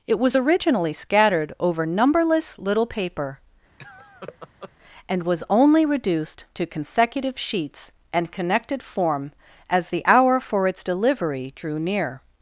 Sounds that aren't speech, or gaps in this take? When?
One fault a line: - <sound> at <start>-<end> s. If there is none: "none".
- laugh at 3.8-4.7 s